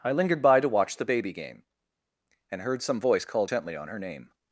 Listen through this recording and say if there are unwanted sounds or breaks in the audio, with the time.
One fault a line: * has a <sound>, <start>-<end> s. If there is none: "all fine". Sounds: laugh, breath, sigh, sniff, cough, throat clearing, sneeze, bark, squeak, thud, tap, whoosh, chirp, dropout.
all fine